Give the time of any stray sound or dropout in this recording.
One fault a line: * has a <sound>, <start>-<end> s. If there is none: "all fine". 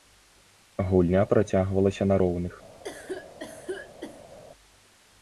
* has a cough, 2.8-4.4 s